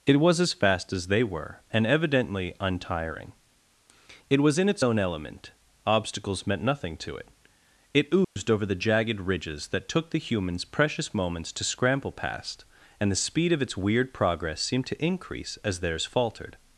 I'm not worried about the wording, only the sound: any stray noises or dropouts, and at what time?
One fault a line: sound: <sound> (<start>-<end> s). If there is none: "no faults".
sound: dropout (8.2-8.4 s)